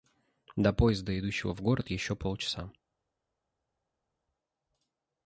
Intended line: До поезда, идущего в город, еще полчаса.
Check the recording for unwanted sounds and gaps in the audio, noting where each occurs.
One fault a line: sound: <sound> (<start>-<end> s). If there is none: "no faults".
no faults